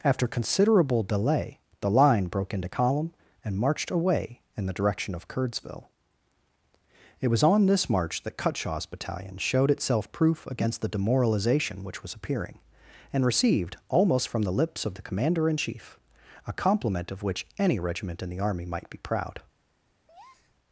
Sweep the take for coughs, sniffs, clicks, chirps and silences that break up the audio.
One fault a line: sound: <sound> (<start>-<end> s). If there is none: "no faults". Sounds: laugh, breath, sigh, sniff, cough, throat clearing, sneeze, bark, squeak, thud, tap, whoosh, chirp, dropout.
sound: breath (20.1-20.6 s)